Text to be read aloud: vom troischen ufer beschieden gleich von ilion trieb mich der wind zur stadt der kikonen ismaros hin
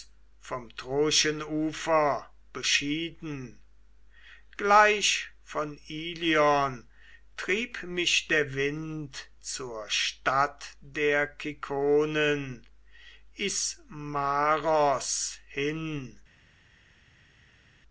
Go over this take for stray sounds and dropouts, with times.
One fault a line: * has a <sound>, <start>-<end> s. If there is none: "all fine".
all fine